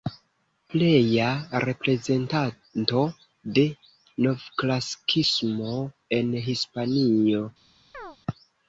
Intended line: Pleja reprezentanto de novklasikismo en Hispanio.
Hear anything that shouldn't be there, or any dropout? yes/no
yes